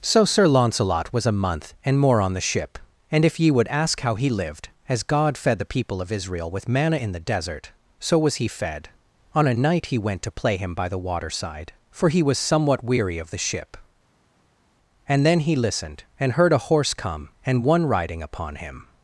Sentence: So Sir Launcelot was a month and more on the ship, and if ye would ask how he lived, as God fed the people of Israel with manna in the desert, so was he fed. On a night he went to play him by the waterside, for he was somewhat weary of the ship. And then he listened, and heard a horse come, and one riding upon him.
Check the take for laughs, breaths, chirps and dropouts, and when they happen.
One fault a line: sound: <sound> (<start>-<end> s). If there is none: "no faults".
no faults